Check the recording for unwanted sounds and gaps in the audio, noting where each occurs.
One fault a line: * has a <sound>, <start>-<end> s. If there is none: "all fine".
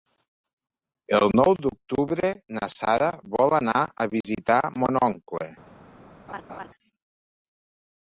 * has a dropout, 4.2-4.2 s
* has a laugh, 6.3-6.7 s